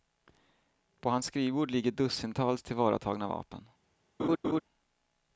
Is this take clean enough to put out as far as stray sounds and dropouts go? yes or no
no